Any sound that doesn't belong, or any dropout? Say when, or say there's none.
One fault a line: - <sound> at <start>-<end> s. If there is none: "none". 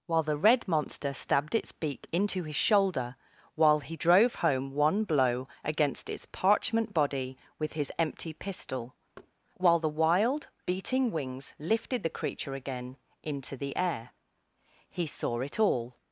- thud at 9.2-9.3 s